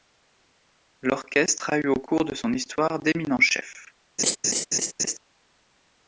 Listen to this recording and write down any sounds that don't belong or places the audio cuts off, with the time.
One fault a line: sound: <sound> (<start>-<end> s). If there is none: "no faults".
sound: laugh (4.2-5.2 s)